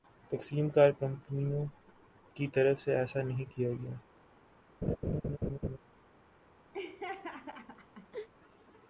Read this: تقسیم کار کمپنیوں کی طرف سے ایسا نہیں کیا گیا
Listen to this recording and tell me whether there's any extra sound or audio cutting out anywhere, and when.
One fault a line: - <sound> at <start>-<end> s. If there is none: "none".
- laugh at 4.8-5.8 s
- laugh at 6.7-8.3 s